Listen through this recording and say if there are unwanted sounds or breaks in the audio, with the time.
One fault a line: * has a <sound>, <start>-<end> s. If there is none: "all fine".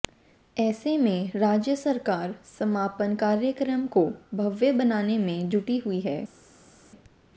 all fine